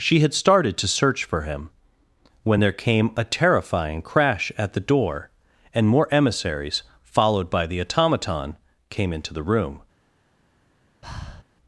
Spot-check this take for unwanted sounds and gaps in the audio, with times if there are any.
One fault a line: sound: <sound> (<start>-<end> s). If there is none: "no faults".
sound: breath (11.0-11.4 s)